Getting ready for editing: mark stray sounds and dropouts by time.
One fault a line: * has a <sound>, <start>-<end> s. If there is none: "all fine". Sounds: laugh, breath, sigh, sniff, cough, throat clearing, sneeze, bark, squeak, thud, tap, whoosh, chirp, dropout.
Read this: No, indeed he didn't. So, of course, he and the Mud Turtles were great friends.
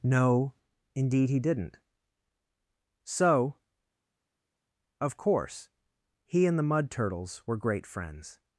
all fine